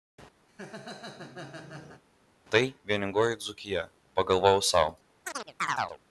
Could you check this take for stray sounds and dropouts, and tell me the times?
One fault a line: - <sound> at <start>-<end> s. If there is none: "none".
- laugh at 0.5-2.0 s
- chirp at 5.2-6.0 s